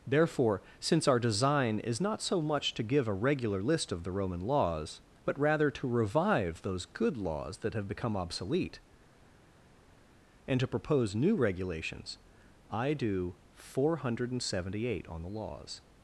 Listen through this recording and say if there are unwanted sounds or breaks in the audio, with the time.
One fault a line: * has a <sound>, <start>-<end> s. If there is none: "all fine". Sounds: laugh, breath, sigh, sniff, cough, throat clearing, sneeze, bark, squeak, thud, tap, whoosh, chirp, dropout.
all fine